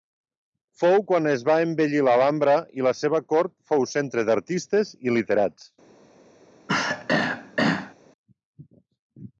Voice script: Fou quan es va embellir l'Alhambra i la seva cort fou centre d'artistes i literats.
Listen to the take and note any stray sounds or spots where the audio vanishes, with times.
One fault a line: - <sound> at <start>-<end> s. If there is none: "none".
- throat clearing at 6.7-7.9 s